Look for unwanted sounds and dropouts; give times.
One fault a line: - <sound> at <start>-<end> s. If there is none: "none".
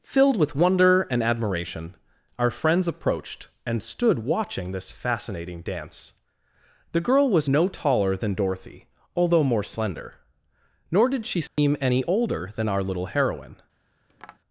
- dropout at 11.5-11.6 s
- tap at 14.1-14.4 s